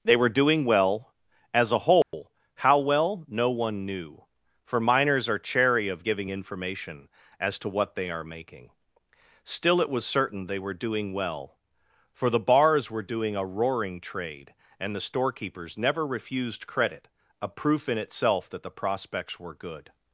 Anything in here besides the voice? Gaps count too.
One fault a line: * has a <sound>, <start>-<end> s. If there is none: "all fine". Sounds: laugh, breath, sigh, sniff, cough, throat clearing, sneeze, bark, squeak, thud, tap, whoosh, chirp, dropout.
* has a dropout, 2.0-2.1 s